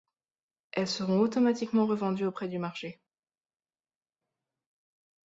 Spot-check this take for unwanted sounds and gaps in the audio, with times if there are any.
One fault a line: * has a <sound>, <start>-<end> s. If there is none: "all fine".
all fine